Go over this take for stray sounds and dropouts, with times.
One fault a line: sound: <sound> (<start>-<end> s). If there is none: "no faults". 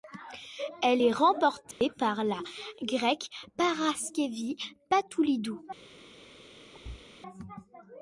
sound: dropout (1.7-1.8 s)
sound: thud (6.7-7.1 s)